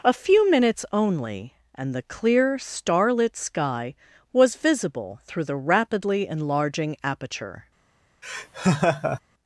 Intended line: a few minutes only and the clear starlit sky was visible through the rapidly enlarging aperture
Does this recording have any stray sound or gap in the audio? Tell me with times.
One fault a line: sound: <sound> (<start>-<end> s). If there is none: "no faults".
sound: laugh (8.2-9.2 s)